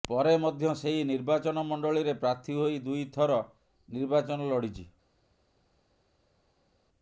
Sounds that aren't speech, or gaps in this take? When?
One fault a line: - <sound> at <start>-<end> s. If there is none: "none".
none